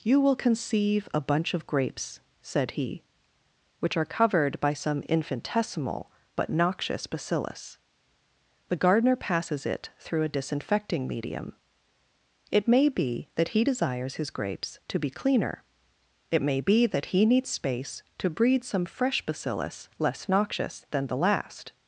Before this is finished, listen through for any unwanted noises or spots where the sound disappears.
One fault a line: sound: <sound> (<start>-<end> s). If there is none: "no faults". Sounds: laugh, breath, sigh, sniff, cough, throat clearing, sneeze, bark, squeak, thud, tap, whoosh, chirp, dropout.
no faults